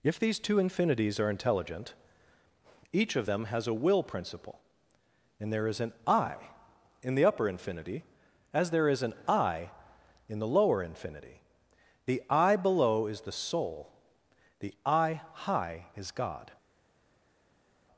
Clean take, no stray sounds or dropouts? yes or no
yes